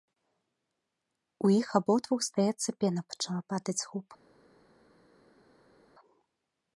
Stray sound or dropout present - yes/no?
no